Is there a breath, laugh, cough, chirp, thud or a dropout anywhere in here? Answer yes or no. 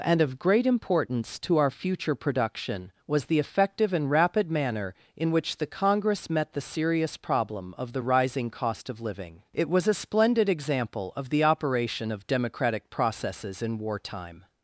no